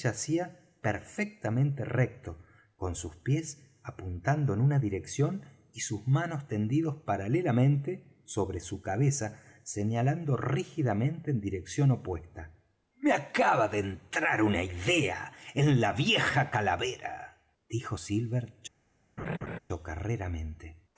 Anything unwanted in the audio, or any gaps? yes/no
yes